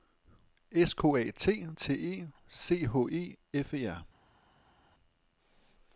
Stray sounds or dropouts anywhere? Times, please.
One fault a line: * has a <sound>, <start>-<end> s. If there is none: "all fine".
all fine